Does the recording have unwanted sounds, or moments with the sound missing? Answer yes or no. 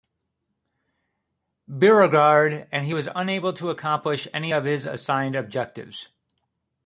no